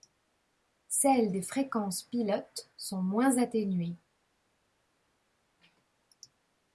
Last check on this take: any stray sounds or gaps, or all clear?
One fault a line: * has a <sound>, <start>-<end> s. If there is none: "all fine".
all fine